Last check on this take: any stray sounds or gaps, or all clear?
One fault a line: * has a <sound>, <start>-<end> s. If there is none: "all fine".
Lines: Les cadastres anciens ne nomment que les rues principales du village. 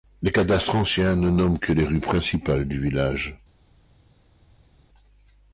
all fine